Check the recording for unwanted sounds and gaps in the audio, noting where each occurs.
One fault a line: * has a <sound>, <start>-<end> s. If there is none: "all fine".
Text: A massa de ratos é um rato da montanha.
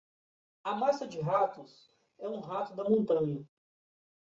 all fine